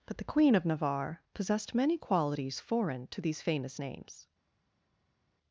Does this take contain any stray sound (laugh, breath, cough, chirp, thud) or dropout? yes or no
no